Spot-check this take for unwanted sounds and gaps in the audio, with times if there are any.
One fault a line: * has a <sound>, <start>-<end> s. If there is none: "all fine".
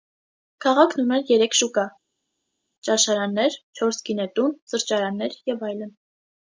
all fine